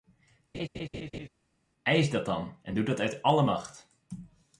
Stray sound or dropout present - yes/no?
yes